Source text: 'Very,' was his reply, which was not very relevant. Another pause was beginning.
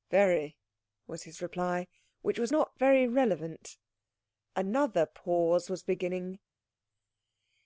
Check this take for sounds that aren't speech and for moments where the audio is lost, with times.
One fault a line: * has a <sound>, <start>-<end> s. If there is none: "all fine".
all fine